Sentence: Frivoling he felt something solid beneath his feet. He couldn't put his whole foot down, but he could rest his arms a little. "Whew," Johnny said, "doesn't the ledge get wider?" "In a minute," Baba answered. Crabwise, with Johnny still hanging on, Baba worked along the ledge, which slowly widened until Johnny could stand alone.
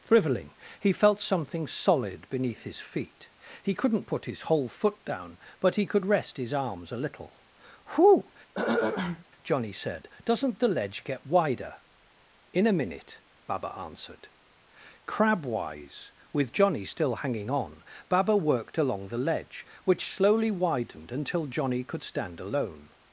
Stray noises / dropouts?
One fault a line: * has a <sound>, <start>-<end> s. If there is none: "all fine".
* has a throat clearing, 8.5-9.2 s